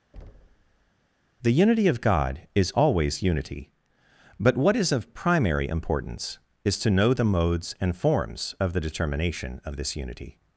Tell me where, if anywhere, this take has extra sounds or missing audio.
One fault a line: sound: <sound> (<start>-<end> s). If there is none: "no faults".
sound: thud (0.1-0.9 s)